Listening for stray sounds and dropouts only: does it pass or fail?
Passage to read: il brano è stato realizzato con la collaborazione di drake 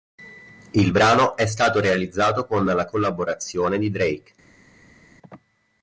pass